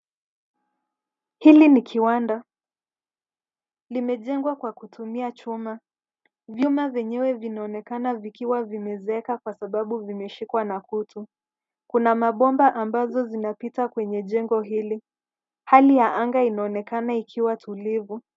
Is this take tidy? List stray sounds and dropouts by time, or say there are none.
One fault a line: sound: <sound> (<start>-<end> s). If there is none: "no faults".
no faults